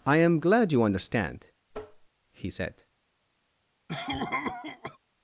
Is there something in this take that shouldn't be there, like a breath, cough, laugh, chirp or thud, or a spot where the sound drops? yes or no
yes